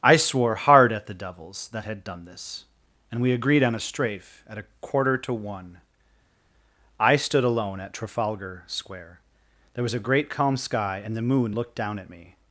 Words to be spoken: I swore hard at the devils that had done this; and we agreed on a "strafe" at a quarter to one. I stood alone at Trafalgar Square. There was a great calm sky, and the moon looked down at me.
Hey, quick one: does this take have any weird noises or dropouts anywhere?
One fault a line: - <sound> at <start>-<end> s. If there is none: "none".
none